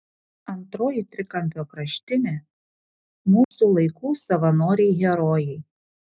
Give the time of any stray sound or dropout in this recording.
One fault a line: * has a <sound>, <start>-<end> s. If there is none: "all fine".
* has a dropout, 3.4-3.5 s